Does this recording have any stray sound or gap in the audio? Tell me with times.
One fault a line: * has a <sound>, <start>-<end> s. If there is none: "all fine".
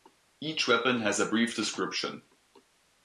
all fine